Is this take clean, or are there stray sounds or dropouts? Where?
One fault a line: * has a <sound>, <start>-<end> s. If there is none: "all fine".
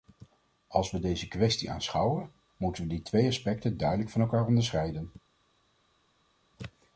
all fine